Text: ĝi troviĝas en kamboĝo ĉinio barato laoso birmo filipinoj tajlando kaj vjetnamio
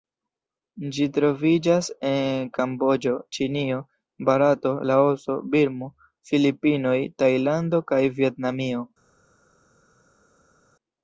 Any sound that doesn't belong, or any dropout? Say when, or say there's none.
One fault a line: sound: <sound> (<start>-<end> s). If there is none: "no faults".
no faults